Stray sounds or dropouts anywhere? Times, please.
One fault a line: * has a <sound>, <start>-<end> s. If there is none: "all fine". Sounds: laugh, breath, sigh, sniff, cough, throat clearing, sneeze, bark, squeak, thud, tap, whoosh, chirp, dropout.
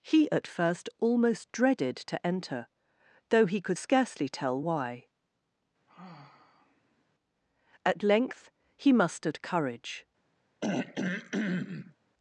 * has a sigh, 5.9-7.0 s
* has a throat clearing, 10.6-12.0 s